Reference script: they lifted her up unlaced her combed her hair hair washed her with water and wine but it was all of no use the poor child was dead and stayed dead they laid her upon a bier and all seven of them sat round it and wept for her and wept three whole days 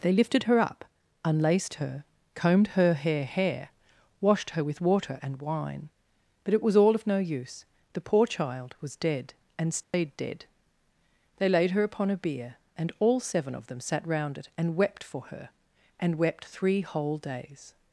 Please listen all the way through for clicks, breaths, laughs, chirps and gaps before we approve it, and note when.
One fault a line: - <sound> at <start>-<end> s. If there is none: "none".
- dropout at 9.8-9.9 s